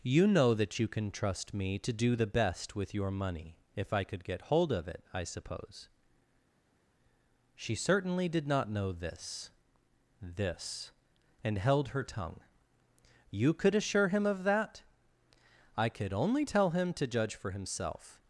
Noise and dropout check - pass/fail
pass